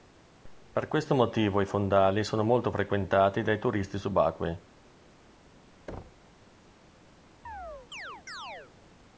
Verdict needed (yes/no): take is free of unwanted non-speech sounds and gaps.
no